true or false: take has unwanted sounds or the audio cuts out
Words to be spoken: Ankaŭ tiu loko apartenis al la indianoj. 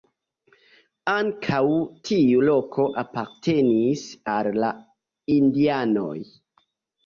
false